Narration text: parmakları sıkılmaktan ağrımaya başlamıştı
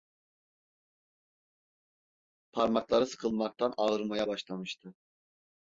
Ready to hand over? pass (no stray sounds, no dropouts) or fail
pass